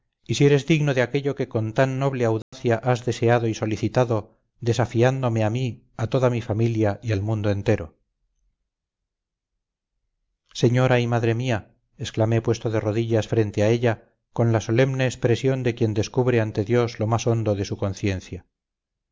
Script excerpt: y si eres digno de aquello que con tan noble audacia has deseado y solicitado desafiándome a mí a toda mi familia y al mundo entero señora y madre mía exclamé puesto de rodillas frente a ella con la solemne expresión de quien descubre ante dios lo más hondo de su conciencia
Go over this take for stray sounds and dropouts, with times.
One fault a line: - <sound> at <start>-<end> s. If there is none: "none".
- dropout at 2.4-2.5 s